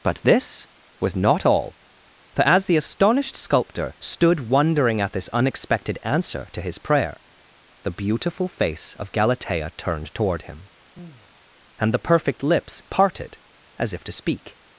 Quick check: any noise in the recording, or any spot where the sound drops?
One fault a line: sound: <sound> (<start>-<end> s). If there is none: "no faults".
sound: sigh (10.9-11.4 s)